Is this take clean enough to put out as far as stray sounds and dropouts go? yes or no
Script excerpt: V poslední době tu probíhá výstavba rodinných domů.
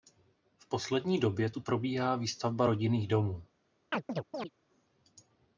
no